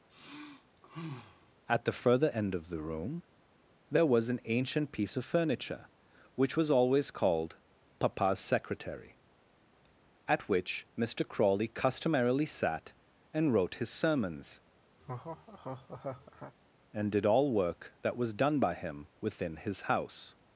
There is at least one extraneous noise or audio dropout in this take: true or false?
true